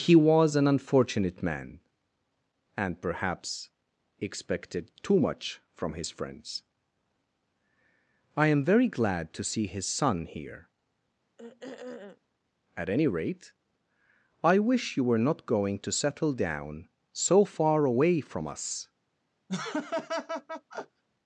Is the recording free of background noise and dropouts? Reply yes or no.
no